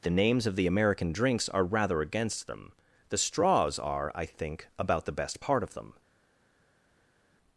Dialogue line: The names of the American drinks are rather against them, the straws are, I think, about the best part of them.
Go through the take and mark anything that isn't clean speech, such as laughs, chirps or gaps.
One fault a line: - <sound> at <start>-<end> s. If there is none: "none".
none